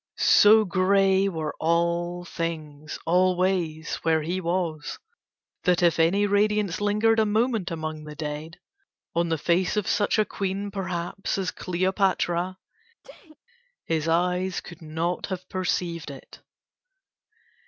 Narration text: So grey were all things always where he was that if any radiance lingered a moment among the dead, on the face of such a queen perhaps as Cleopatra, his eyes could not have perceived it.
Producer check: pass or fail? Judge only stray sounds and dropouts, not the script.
fail